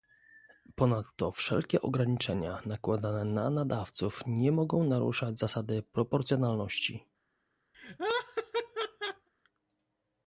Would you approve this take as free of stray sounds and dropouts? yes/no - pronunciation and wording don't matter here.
no